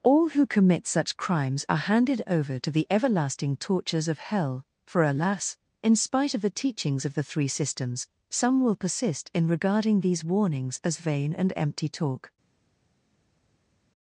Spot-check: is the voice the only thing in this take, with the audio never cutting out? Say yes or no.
yes